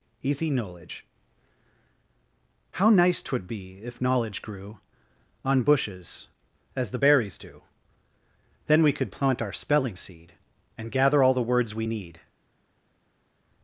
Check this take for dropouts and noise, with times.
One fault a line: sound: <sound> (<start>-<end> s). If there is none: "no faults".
no faults